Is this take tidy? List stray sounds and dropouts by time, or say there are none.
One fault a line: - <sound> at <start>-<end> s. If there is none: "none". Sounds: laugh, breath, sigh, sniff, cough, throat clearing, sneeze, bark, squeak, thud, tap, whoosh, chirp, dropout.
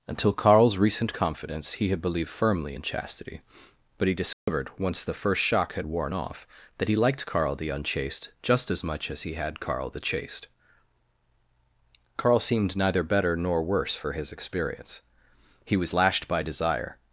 - dropout at 4.3-4.5 s